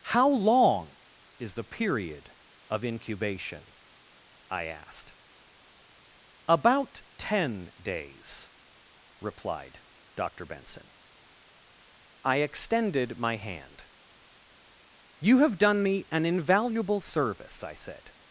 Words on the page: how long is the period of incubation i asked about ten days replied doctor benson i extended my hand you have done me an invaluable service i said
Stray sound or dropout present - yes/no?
no